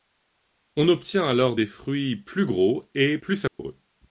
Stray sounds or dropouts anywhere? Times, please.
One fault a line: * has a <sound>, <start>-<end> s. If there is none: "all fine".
* has a dropout, 3.5-3.6 s